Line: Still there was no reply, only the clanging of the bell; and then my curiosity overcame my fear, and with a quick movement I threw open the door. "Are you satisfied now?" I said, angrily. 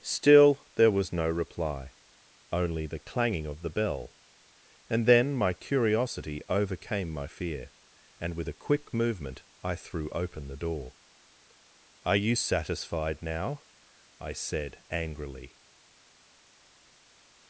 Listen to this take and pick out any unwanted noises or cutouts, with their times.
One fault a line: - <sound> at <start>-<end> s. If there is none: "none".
none